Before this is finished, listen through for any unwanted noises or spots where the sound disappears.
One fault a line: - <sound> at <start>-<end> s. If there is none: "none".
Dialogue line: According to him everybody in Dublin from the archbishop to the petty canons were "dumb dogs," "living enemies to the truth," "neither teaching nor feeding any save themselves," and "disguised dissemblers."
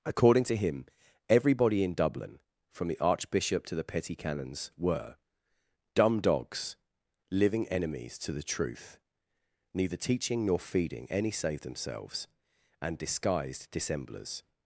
none